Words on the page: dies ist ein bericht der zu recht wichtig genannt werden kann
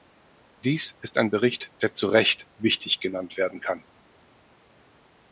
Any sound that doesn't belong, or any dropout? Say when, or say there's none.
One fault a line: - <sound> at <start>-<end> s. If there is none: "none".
none